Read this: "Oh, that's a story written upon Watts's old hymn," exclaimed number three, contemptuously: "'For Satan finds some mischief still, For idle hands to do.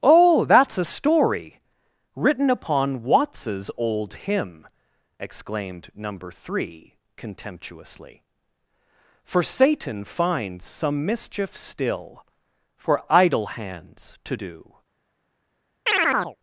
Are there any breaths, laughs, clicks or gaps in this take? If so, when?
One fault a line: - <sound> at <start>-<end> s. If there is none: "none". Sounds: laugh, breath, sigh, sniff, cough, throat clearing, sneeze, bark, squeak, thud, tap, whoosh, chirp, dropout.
- chirp at 15.9-16.4 s